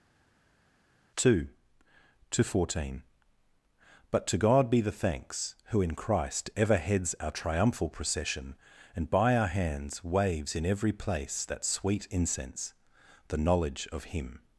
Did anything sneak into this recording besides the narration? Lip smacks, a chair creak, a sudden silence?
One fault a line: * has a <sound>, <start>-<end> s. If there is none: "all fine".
all fine